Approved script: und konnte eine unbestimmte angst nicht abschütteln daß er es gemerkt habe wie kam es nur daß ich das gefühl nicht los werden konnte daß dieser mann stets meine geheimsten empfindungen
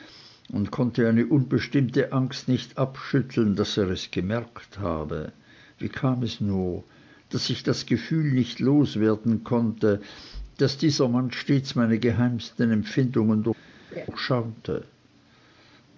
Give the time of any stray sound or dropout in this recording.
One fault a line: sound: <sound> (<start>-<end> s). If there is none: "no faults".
sound: laugh (13.9-14.1 s)